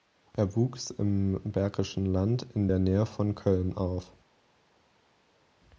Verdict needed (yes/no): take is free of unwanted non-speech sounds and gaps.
yes